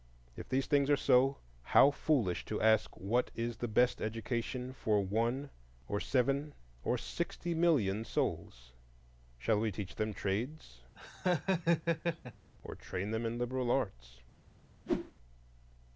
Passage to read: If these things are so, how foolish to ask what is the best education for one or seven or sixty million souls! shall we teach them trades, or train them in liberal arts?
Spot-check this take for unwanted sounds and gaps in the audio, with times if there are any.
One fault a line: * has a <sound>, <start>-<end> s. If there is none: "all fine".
* has a laugh, 11.0-12.5 s
* has a whoosh, 14.9-15.1 s